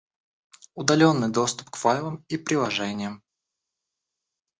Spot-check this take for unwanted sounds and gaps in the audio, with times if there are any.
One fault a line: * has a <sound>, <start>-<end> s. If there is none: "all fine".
all fine